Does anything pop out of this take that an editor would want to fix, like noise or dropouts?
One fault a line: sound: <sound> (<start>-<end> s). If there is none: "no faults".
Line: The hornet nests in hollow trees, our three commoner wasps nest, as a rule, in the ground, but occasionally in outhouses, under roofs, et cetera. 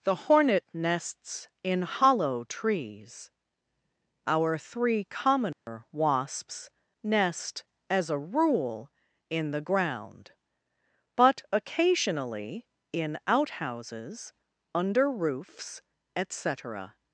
sound: dropout (5.5-5.7 s)